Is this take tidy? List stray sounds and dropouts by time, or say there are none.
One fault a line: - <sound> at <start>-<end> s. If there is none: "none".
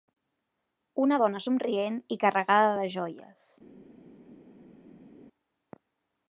none